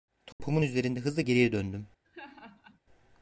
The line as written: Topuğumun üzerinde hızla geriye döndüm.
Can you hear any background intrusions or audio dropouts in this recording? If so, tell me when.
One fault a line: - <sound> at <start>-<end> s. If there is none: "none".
- dropout at 0.3-0.4 s
- laugh at 2.0-2.8 s